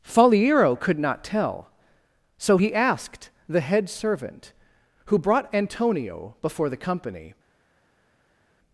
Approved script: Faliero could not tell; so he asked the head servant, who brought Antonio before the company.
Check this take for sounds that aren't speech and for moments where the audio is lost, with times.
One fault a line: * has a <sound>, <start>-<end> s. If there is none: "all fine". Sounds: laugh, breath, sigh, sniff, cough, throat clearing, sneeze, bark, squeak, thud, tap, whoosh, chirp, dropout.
all fine